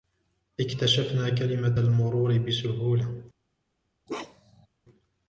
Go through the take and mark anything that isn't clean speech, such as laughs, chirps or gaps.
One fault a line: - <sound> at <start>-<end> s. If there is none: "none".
- bark at 4.1-4.7 s